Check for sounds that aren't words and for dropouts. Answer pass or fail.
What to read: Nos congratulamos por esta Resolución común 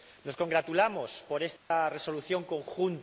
fail